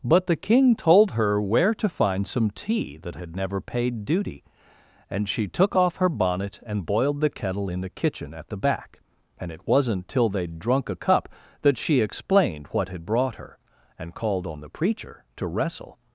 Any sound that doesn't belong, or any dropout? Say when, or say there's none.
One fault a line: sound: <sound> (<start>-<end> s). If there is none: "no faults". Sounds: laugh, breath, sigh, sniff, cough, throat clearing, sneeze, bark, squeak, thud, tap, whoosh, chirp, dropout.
no faults